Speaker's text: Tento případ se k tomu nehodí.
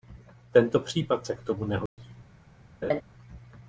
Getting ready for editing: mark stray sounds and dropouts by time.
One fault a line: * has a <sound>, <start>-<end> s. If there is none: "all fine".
* has a dropout, 1.9-2.0 s
* has a laugh, 2.8-3.0 s